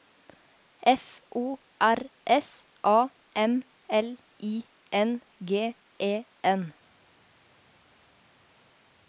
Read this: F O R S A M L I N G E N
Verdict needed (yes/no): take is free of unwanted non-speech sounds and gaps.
yes